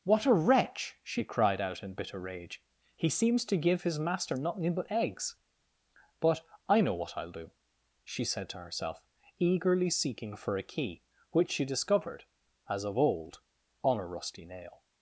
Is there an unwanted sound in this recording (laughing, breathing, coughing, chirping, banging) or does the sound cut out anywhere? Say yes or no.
no